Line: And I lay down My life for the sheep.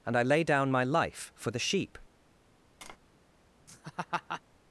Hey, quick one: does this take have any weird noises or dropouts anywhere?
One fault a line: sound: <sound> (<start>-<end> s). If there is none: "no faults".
sound: tap (2.8-3.0 s)
sound: laugh (3.7-4.4 s)